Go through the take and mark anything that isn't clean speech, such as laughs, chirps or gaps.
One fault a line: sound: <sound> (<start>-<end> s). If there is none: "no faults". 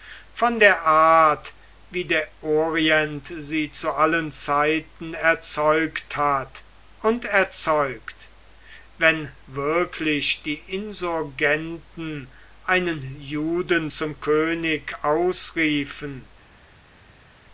no faults